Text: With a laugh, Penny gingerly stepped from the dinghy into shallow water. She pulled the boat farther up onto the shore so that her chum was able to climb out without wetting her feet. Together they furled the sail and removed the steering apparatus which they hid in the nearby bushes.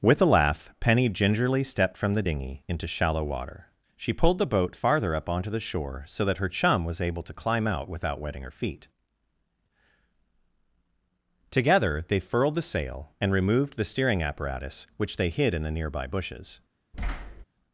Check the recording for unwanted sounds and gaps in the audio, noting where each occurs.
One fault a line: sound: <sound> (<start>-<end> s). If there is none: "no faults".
sound: thud (16.9-17.4 s)